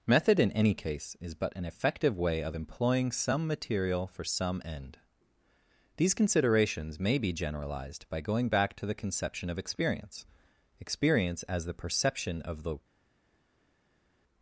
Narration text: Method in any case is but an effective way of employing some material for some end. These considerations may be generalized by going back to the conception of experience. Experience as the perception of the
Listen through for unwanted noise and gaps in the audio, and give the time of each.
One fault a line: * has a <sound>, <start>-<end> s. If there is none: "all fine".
all fine